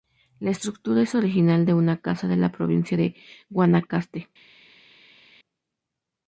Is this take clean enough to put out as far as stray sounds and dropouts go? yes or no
yes